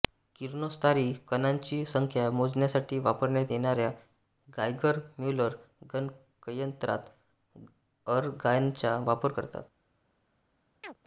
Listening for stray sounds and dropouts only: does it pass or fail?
fail